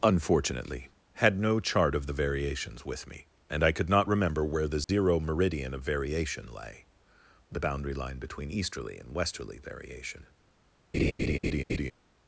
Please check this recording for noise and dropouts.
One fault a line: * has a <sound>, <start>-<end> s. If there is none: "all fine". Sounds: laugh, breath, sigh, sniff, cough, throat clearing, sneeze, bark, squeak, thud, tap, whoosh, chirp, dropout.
* has a dropout, 4.8-4.9 s
* has a laugh, 10.9-11.9 s